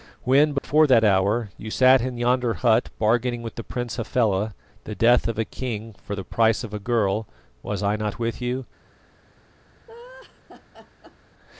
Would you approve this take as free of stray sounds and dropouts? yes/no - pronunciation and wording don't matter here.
no